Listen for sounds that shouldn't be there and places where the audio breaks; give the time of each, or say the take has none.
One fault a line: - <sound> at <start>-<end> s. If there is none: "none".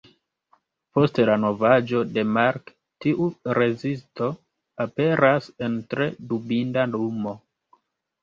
none